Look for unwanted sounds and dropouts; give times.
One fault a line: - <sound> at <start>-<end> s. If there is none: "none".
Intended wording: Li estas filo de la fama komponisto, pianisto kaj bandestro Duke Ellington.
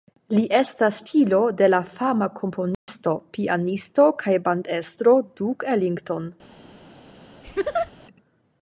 - dropout at 2.7-2.9 s
- laugh at 7.4-7.9 s